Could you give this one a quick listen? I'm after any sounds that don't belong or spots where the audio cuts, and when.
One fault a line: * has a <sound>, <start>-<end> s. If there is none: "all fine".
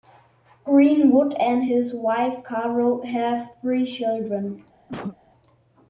* has a cough, 4.9-5.2 s